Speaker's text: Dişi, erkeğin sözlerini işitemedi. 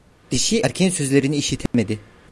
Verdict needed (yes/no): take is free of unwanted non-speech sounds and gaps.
no